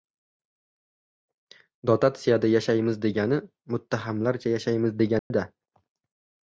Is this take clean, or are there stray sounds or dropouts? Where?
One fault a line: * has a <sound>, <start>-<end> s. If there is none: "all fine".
* has a dropout, 5.2-5.3 s